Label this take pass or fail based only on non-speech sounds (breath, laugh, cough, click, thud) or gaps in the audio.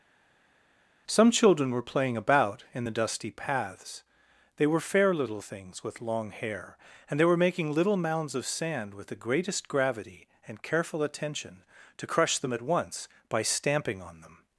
pass